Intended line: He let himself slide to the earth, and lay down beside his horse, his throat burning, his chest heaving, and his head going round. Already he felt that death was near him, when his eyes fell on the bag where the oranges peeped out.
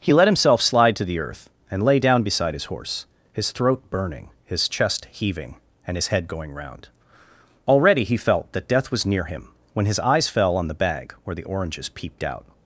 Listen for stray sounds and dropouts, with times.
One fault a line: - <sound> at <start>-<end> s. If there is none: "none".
none